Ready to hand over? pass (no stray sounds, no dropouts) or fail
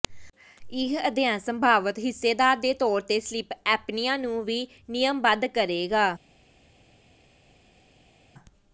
pass